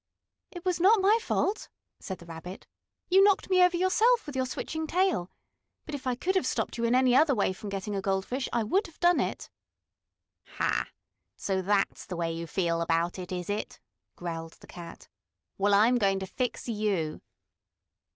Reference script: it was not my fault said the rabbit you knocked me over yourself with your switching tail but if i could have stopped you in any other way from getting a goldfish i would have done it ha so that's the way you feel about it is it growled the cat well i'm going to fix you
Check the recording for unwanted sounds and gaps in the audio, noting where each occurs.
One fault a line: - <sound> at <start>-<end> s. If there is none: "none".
none